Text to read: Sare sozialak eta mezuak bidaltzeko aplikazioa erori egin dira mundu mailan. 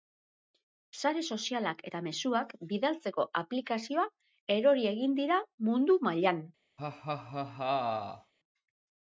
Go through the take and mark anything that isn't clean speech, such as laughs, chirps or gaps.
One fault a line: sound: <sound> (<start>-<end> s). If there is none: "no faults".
sound: laugh (6.8-8.3 s)